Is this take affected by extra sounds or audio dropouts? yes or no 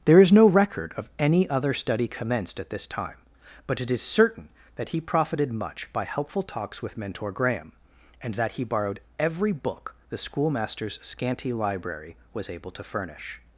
no